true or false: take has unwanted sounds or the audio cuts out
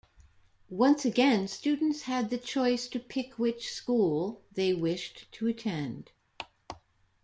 false